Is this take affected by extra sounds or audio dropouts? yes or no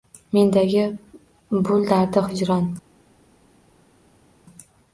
no